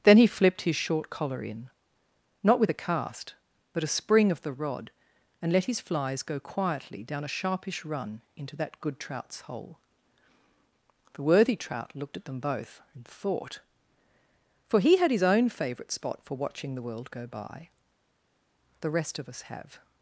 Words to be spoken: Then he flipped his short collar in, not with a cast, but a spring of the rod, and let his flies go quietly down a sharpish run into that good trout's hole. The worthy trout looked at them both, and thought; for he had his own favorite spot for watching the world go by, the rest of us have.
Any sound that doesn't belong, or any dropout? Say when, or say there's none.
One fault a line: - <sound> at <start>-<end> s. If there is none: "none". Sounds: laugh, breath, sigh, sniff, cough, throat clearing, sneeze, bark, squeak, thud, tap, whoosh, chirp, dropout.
none